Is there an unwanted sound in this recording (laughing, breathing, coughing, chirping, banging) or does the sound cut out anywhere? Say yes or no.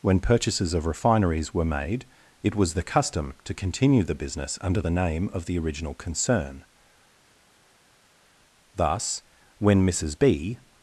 no